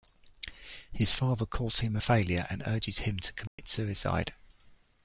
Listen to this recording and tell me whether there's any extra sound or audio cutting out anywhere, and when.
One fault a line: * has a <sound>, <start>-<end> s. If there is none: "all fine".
* has a dropout, 3.5-3.6 s